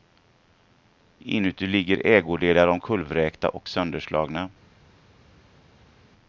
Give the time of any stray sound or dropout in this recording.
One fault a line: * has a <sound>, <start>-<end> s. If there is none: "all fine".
all fine